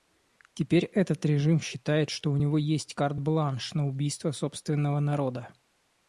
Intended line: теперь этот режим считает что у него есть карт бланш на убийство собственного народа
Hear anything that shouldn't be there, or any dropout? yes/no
no